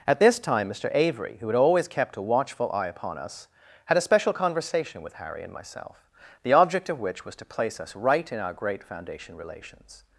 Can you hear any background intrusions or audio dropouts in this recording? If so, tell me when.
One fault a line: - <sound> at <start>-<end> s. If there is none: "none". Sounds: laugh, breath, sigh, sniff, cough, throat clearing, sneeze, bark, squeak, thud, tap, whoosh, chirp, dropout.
none